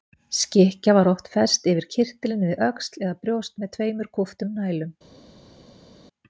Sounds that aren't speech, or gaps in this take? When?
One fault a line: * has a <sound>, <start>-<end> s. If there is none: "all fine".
all fine